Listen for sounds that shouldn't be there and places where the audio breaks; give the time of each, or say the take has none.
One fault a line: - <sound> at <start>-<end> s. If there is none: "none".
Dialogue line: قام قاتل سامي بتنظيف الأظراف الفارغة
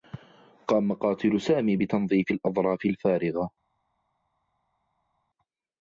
none